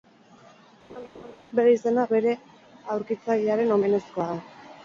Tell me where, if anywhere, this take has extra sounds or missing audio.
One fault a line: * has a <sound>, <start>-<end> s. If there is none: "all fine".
* has a laugh, 0.9-1.4 s